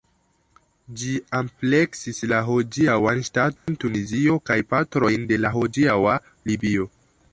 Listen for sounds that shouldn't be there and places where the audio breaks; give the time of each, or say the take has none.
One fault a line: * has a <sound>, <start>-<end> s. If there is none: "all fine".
* has a dropout, 3.6-3.7 s